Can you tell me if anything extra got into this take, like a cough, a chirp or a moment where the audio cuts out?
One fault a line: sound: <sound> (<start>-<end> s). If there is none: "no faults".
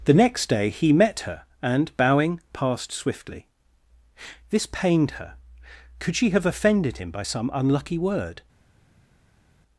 no faults